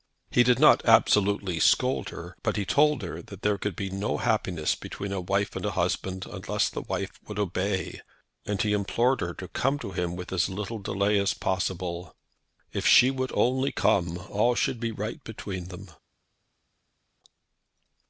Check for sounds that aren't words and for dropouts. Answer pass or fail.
pass